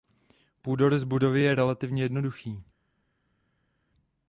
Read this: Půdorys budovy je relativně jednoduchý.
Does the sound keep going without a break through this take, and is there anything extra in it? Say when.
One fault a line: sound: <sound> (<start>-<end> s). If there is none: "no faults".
no faults